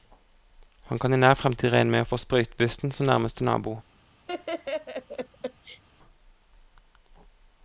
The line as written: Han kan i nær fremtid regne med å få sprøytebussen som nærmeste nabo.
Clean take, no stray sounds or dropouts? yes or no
no